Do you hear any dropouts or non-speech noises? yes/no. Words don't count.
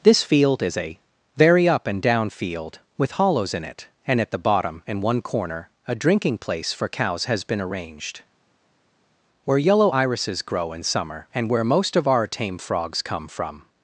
no